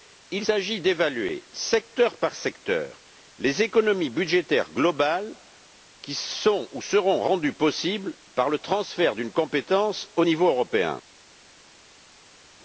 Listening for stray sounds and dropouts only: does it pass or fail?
pass